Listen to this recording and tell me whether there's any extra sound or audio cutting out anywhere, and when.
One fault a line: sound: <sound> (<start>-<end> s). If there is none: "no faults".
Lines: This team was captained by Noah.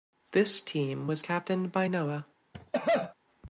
sound: cough (2.5-3.1 s)